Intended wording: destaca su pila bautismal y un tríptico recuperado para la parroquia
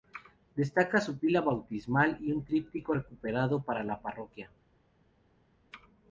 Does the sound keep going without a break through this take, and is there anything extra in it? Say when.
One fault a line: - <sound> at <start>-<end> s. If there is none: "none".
none